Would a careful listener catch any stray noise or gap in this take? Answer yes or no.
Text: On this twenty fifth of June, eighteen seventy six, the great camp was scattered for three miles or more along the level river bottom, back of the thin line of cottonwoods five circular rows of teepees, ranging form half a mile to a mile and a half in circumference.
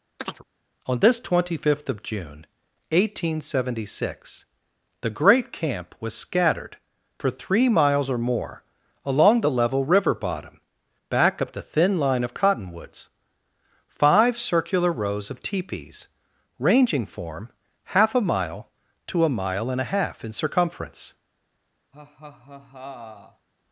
yes